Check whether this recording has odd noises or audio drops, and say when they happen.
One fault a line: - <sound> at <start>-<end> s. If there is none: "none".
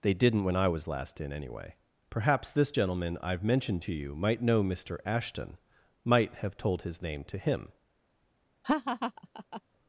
- laugh at 8.6-9.6 s